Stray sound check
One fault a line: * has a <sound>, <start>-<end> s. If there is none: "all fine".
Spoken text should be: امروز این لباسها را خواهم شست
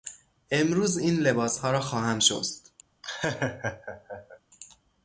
* has a laugh, 3.0-4.4 s